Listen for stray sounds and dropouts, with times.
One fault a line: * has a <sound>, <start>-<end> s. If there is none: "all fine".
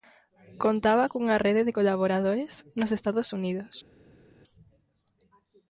all fine